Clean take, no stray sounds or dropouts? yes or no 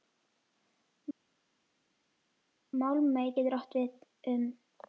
yes